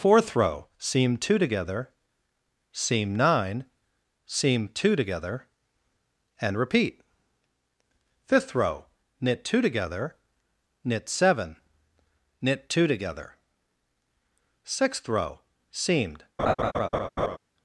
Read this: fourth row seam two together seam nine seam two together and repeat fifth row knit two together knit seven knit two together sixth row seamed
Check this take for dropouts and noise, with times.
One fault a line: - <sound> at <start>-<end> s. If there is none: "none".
- laugh at 16.4-17.4 s